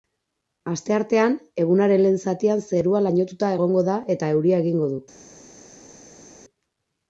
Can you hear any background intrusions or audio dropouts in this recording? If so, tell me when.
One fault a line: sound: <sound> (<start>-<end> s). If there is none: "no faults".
no faults